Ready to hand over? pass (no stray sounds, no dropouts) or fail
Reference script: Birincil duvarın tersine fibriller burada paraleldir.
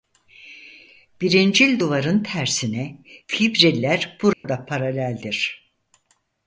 fail